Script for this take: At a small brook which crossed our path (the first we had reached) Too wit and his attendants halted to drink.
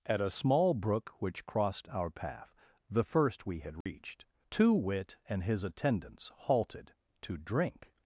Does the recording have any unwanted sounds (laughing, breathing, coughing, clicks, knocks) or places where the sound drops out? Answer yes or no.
yes